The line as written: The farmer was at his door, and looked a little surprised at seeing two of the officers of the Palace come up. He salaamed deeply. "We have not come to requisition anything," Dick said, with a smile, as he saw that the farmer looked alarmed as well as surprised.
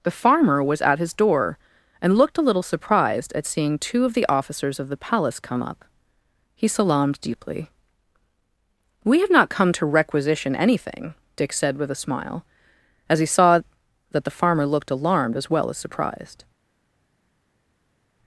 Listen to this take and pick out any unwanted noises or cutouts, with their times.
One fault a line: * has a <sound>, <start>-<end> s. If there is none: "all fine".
all fine